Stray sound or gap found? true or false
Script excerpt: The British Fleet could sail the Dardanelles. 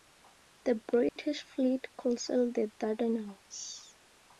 true